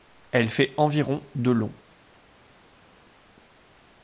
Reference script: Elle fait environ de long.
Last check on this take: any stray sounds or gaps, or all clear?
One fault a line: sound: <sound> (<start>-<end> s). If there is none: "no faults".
no faults